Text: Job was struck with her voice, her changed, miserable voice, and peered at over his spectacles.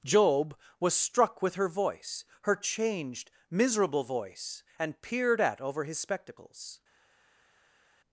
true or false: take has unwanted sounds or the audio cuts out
false